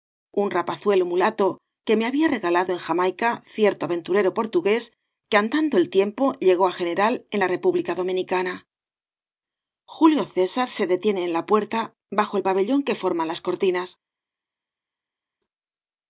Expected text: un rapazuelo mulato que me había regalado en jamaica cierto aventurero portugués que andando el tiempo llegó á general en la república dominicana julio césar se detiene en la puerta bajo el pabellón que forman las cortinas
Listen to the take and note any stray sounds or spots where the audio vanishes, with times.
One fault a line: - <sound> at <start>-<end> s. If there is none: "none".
none